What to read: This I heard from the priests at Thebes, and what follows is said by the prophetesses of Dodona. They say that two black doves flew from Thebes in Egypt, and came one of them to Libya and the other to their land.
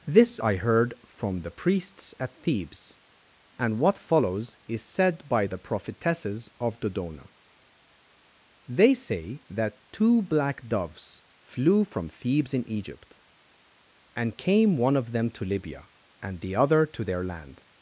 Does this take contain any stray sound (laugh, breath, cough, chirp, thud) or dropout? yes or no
no